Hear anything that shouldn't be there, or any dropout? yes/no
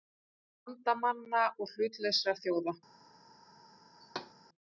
yes